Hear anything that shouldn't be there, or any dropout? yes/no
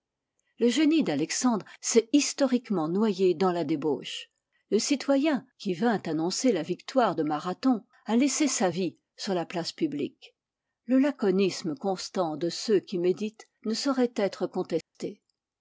yes